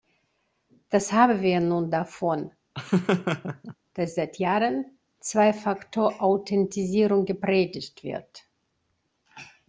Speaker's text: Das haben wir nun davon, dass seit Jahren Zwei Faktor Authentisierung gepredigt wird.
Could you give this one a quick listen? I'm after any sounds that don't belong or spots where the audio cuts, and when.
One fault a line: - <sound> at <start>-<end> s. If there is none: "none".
- laugh at 2.7-3.8 s